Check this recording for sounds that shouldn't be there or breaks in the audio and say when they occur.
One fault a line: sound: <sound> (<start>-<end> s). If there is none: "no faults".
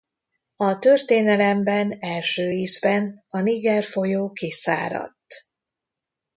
no faults